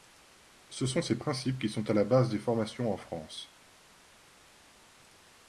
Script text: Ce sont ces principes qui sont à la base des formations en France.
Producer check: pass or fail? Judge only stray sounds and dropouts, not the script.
pass